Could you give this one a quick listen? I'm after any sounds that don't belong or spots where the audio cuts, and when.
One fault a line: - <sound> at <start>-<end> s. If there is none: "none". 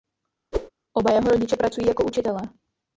- whoosh at 0.5-0.7 s